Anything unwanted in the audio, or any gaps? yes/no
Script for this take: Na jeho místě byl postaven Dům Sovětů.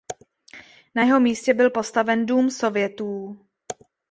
no